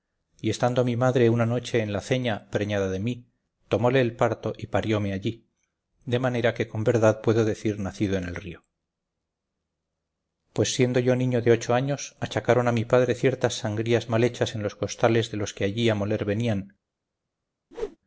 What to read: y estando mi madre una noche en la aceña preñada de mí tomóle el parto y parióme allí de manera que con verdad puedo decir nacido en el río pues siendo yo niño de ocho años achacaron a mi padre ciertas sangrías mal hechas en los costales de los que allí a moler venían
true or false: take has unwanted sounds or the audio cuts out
true